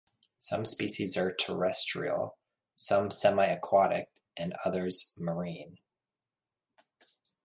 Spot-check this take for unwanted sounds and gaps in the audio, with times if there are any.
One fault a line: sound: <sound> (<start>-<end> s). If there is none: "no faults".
no faults